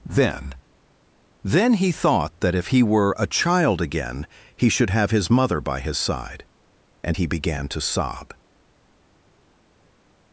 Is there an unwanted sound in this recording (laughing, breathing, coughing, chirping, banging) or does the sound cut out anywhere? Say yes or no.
no